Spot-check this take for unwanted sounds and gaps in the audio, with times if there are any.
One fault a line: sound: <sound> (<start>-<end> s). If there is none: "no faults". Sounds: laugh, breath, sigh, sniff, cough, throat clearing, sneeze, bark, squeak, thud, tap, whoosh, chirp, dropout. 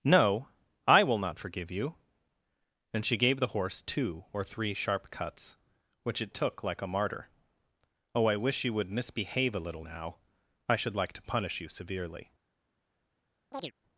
sound: chirp (13.5-13.7 s)